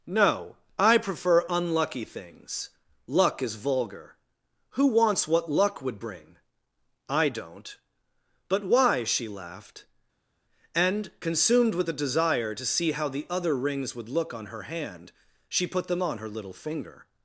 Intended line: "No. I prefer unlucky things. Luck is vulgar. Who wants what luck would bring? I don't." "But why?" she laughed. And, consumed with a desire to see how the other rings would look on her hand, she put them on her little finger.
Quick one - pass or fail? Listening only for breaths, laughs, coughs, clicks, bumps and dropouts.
pass